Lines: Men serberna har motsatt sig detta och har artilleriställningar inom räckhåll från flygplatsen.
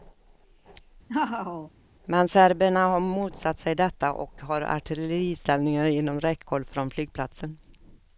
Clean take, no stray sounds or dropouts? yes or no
no